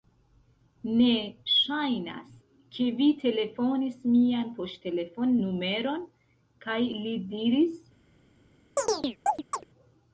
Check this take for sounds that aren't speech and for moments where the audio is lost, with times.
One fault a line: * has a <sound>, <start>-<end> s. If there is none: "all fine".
* has a chirp, 8.8-9.6 s